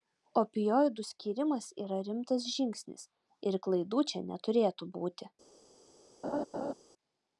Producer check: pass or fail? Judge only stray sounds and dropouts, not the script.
fail